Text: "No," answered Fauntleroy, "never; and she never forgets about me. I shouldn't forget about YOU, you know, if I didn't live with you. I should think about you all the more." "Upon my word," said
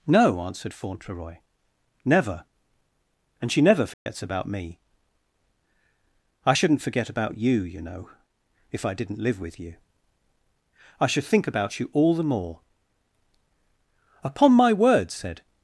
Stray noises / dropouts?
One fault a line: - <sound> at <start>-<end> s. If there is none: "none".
- dropout at 3.9-4.1 s